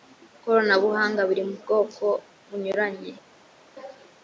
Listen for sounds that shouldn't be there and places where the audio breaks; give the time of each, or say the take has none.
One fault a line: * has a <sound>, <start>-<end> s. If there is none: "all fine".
all fine